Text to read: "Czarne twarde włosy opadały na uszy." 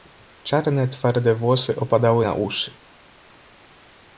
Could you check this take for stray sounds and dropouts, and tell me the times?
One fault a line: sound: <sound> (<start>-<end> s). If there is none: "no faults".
no faults